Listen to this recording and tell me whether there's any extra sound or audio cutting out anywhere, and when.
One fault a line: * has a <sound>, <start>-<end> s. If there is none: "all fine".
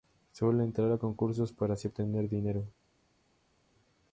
all fine